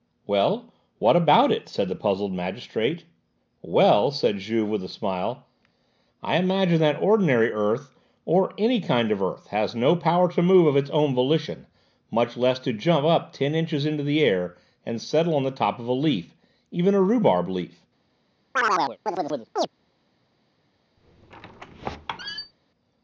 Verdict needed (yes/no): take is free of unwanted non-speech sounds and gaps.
no